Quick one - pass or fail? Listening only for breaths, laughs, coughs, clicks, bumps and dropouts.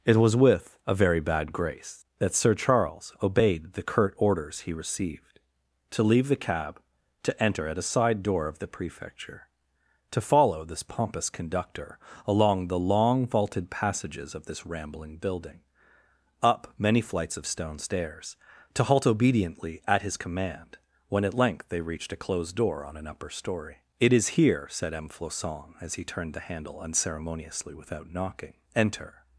pass